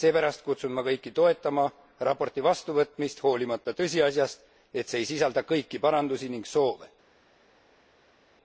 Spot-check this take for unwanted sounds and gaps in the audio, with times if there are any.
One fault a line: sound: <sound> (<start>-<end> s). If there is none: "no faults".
no faults